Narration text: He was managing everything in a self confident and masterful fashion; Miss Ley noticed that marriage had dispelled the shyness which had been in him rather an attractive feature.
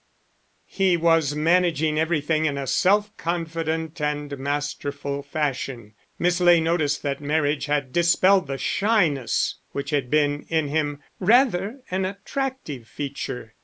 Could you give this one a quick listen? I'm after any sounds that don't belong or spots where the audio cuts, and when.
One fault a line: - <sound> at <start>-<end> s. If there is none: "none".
none